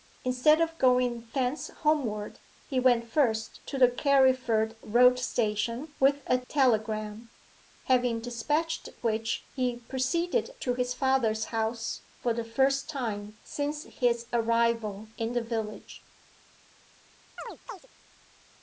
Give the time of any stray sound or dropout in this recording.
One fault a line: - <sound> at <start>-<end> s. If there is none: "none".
- chirp at 17.4-17.9 s